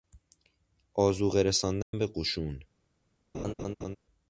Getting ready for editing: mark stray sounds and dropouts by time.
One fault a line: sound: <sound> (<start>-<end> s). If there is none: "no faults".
sound: dropout (1.8-1.9 s)
sound: laugh (3.3-4.0 s)